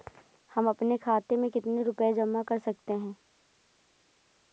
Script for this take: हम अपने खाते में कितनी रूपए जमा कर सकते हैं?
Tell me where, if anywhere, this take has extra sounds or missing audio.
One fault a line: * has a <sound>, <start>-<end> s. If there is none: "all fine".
all fine